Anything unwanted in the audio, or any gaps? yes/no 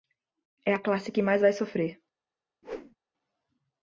yes